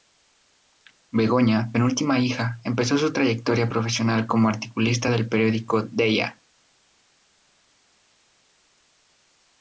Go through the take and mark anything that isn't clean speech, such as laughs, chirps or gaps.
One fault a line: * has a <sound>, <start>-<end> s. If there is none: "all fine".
all fine